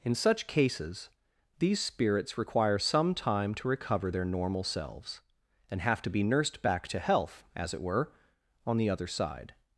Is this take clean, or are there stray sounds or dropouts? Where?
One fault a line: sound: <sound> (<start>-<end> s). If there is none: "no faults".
no faults